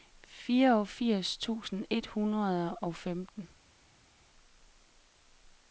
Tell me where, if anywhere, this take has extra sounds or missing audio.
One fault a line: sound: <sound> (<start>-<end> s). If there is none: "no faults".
no faults